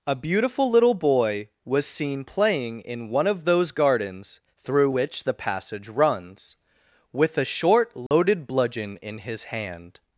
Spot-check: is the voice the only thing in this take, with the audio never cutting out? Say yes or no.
no